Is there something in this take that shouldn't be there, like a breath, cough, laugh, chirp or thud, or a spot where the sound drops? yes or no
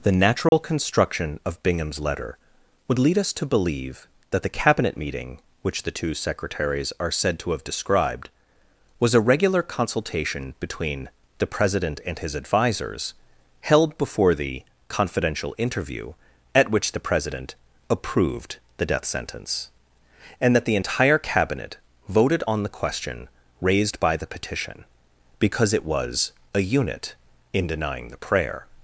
yes